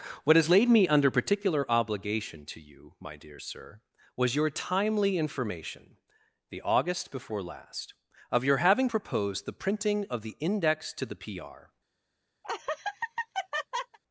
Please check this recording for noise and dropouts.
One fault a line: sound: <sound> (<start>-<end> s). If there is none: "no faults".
sound: laugh (12.4-14.0 s)